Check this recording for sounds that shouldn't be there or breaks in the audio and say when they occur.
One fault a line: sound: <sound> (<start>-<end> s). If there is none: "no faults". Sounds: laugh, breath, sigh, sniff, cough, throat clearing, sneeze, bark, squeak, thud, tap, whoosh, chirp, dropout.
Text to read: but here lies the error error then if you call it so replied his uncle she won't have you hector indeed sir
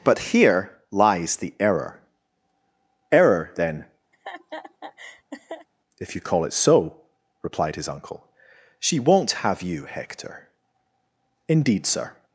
sound: laugh (4.1-5.7 s)